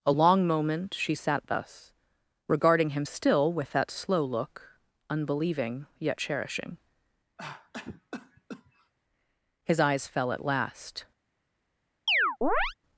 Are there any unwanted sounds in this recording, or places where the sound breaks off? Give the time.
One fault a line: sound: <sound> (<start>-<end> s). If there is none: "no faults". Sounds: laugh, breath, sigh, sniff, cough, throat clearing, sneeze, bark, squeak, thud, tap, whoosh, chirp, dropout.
sound: cough (7.4-8.9 s)
sound: chirp (12.1-12.7 s)